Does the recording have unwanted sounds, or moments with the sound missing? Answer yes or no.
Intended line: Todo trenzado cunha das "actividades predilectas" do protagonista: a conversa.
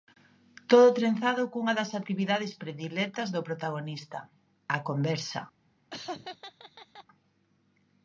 yes